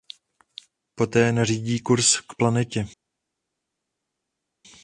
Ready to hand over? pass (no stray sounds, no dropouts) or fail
pass